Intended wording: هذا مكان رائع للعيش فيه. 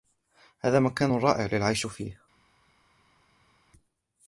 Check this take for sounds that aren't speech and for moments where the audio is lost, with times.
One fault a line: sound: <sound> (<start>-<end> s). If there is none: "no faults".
no faults